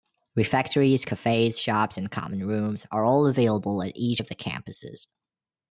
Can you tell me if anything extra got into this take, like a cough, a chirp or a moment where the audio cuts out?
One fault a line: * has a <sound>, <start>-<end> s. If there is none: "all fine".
all fine